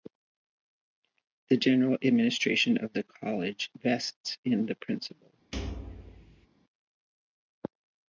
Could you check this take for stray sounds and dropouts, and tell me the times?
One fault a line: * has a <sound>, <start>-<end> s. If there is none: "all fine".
* has a thud, 5.5-6.5 s